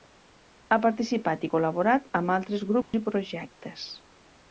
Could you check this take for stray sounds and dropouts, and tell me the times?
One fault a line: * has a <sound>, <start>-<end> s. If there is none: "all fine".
* has a dropout, 2.8-2.9 s